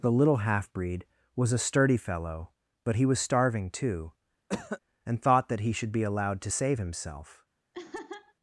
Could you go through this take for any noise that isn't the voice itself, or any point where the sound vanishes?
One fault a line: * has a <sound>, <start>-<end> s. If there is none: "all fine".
* has a cough, 4.5-4.8 s
* has a laugh, 7.7-8.3 s